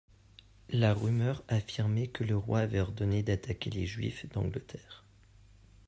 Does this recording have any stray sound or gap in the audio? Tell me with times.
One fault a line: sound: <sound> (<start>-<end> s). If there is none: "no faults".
no faults